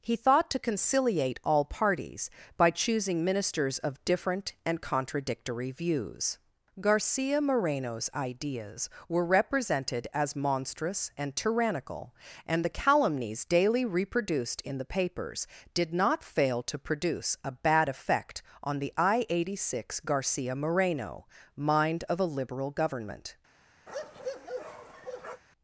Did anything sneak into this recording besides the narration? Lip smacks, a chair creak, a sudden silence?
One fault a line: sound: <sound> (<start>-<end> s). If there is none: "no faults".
sound: bark (23.9-25.4 s)